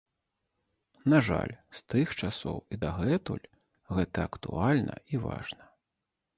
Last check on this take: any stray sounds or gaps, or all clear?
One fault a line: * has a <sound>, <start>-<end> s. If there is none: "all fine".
all fine